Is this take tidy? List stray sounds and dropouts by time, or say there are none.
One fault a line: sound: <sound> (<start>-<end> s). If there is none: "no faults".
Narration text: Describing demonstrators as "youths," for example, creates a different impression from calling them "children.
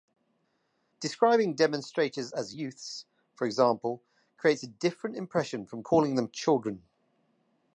no faults